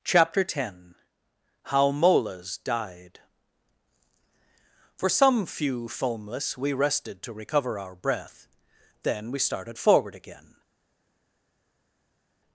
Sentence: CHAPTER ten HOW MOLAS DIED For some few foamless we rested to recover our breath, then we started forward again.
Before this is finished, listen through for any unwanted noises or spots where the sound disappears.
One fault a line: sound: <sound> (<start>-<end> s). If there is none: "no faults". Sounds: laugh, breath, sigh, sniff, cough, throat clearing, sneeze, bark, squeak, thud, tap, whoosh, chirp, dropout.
no faults